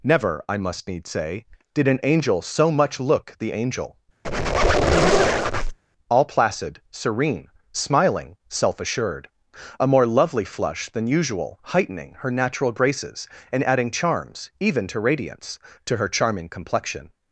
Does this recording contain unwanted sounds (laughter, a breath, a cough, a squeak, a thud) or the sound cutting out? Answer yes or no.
yes